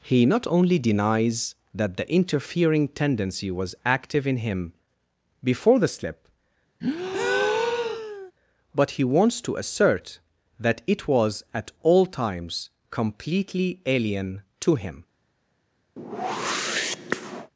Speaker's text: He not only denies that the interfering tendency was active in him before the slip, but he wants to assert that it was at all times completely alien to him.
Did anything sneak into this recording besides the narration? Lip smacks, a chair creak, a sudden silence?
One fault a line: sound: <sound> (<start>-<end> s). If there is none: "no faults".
sound: breath (6.8-8.3 s)
sound: whoosh (16.0-17.5 s)